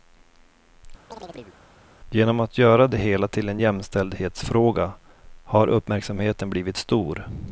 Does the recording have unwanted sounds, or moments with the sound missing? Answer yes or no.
yes